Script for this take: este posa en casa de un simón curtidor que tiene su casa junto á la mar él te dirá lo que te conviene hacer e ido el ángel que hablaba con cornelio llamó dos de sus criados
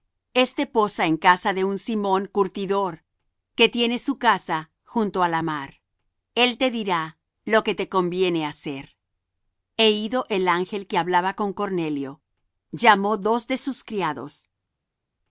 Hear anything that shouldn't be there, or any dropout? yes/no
no